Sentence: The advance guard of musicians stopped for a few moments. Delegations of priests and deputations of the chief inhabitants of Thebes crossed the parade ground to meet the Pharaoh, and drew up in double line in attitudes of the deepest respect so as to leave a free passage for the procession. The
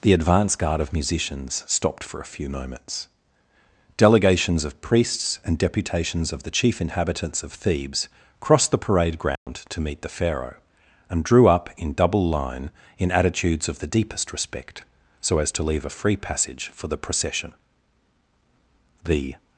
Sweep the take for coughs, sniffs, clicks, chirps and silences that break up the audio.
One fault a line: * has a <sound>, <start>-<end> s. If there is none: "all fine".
* has a dropout, 9.4-9.5 s